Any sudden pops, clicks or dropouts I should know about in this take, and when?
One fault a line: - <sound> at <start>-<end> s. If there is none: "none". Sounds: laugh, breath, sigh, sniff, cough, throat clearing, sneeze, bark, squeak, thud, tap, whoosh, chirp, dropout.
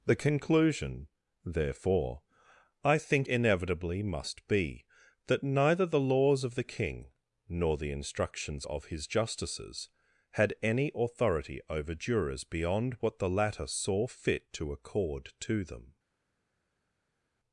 none